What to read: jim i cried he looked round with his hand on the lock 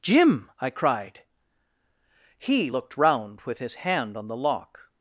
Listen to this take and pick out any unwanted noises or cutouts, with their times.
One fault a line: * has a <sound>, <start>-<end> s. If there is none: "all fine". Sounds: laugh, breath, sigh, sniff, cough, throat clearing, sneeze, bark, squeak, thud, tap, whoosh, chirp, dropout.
all fine